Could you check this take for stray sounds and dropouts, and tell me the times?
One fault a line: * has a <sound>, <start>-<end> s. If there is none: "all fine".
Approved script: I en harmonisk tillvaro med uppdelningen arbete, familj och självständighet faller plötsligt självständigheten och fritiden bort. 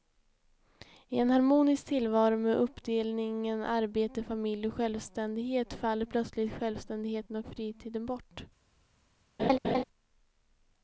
* has a laugh, 9.4-9.8 s